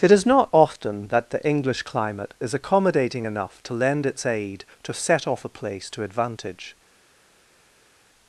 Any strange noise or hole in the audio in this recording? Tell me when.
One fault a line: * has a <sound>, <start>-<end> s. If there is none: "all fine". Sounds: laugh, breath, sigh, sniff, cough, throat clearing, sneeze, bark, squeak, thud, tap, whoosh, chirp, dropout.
all fine